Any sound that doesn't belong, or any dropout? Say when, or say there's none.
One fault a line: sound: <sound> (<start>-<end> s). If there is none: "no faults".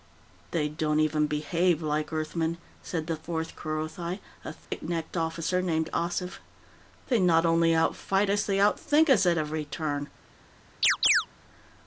sound: dropout (4.6-4.7 s)
sound: chirp (10.8-11.3 s)